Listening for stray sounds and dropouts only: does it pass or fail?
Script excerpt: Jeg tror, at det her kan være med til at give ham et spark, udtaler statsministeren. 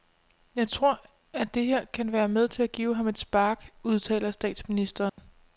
fail